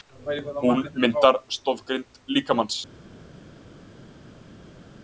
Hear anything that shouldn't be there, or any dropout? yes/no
no